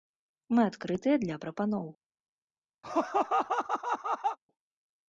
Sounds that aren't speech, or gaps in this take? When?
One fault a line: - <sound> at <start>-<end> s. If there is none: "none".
- laugh at 2.8-4.4 s